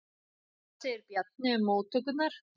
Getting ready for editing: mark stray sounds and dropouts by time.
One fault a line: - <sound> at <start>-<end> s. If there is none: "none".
none